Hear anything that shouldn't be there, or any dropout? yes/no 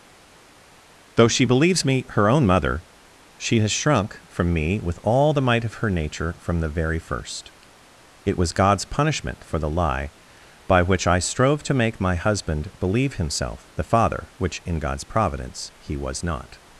no